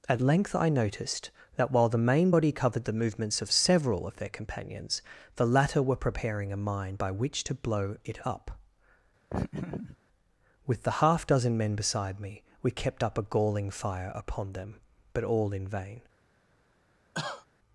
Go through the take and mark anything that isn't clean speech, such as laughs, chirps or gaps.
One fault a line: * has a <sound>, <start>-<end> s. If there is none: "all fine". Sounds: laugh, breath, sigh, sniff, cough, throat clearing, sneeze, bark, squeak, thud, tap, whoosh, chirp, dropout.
* has a laugh, 9.3-10.0 s
* has a cough, 17.1-17.5 s